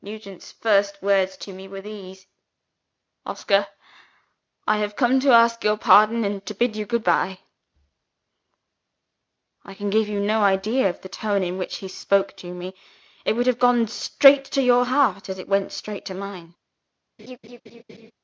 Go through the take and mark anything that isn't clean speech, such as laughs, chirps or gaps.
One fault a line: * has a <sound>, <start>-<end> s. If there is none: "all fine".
* has a laugh, 17.2-18.1 s